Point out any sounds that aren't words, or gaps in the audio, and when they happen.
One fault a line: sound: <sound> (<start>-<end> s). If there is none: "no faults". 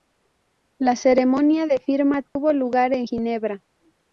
sound: dropout (2.3-2.4 s)